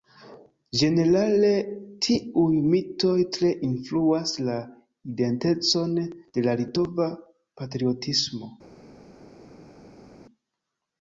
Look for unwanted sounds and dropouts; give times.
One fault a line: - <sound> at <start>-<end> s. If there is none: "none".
none